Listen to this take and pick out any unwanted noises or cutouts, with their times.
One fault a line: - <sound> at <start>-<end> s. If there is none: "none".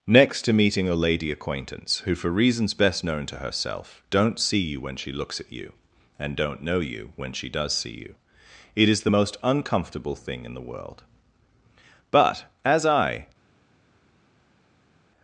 none